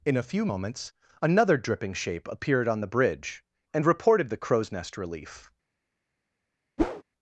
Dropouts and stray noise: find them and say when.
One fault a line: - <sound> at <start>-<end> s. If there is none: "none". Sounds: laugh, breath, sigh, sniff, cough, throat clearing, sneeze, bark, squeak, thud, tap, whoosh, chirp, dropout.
- whoosh at 6.8-7.0 s